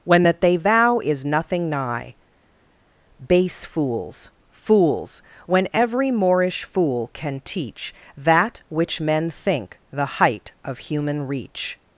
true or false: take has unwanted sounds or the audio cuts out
false